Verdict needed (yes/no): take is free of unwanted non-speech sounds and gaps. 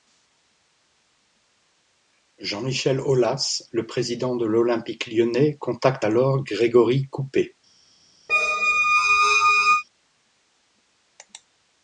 no